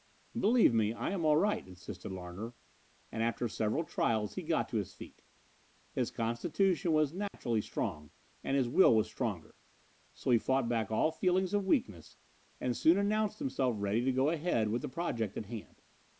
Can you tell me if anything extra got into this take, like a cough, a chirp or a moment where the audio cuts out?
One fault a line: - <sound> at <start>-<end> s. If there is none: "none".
- dropout at 7.3-7.3 s